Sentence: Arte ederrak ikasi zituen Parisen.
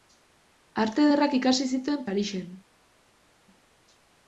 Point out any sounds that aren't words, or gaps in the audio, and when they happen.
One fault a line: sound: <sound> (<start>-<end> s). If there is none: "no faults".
no faults